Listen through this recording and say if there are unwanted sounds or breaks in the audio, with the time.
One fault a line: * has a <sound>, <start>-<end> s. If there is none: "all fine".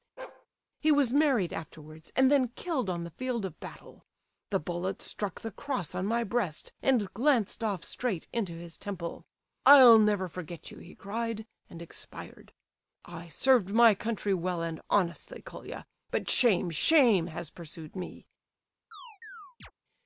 * has a bark, 0.2-0.5 s
* has a chirp, 18.9-19.7 s